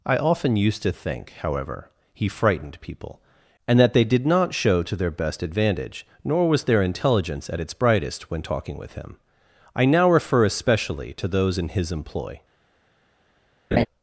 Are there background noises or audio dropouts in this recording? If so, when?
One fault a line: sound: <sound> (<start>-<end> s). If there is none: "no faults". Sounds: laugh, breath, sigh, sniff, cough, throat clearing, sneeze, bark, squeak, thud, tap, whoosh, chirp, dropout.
sound: laugh (13.7-13.9 s)